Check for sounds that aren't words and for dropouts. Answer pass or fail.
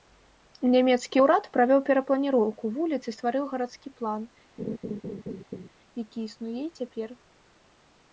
fail